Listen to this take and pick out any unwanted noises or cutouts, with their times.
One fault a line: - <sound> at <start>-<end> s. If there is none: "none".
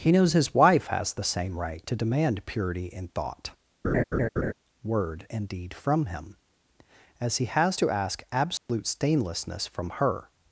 - laugh at 3.8-4.5 s
- dropout at 8.6-8.7 s